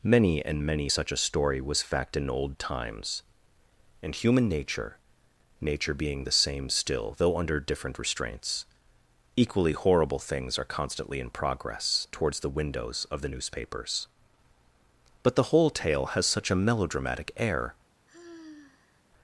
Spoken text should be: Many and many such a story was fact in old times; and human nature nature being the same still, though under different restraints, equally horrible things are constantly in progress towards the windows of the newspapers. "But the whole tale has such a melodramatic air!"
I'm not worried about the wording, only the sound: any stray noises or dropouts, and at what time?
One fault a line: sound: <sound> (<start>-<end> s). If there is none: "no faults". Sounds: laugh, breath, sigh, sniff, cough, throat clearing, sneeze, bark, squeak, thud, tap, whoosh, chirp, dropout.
sound: sigh (18.1-19.0 s)